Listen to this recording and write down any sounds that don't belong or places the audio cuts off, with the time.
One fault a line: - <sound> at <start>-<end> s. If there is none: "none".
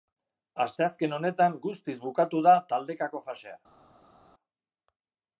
none